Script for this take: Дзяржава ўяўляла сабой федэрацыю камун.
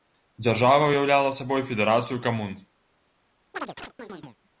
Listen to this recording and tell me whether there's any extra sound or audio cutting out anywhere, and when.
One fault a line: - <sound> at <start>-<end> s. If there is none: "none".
- chirp at 3.5-4.4 s